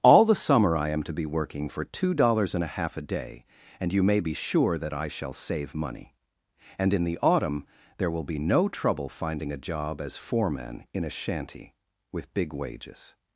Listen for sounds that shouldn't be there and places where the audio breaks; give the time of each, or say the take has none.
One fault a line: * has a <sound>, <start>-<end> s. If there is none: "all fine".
all fine